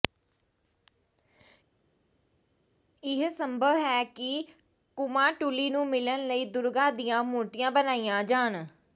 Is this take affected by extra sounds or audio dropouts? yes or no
no